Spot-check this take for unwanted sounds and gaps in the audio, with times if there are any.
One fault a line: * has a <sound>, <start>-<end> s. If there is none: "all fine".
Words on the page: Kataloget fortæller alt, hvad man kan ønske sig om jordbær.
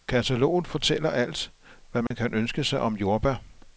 * has a dropout, 2.1-2.1 s